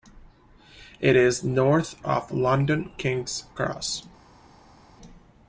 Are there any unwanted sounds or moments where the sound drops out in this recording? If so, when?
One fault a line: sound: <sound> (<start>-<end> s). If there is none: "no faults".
no faults